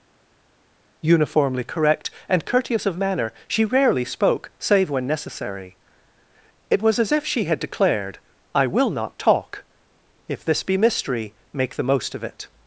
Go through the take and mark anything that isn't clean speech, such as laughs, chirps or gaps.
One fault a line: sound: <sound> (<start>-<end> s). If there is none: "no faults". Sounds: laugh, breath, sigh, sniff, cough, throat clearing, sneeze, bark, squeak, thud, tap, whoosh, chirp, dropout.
no faults